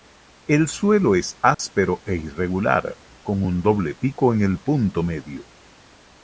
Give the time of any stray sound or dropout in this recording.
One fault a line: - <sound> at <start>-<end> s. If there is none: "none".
- dropout at 1.5-1.6 s